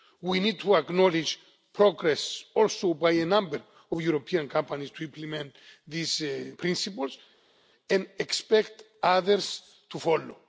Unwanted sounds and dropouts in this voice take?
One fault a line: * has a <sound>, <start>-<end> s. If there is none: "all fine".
all fine